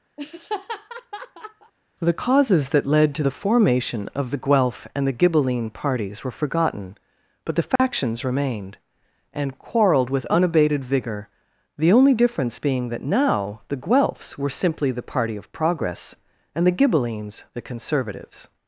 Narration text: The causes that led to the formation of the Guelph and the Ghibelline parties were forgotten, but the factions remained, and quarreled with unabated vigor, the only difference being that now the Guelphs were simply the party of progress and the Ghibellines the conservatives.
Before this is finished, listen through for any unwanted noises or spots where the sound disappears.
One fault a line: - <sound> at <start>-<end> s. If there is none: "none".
- laugh at 0.2-1.7 s
- dropout at 7.8-7.8 s